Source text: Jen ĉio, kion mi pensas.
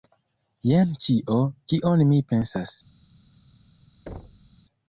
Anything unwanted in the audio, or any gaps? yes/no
yes